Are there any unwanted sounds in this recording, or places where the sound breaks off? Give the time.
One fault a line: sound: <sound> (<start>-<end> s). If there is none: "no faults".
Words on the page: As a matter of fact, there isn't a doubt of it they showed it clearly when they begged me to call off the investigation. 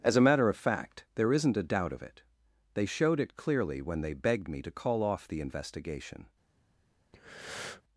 sound: breath (7.1-7.8 s)